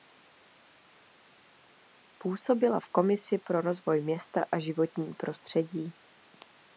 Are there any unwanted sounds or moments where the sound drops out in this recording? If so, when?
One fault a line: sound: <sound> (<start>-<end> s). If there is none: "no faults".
no faults